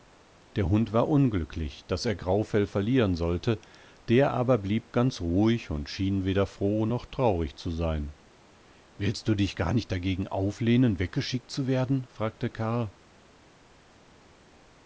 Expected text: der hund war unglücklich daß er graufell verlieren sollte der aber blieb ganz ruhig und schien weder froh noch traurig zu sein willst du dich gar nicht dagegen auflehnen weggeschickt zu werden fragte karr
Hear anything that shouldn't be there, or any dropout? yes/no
no